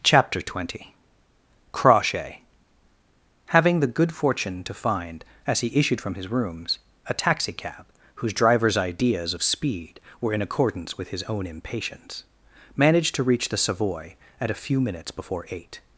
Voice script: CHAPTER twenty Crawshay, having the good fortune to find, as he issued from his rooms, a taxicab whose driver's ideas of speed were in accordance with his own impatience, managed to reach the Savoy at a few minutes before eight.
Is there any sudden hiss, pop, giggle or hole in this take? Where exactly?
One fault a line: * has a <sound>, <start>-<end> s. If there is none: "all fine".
all fine